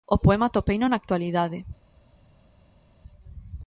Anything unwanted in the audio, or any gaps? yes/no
no